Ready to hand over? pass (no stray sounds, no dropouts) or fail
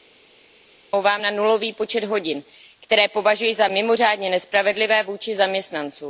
pass